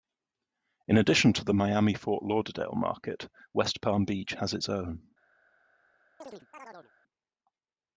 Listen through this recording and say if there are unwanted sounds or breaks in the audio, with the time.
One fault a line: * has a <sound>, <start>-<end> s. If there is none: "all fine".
* has a chirp, 6.2-6.9 s